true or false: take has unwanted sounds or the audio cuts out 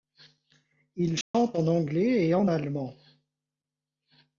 true